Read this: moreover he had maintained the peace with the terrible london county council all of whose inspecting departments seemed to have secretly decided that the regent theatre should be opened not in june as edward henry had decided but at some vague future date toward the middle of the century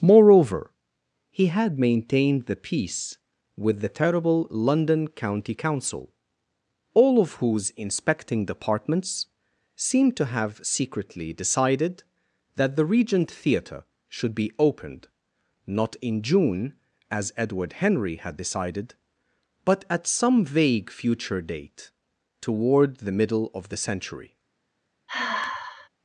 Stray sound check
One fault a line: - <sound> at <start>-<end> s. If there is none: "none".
- sigh at 25.1-25.9 s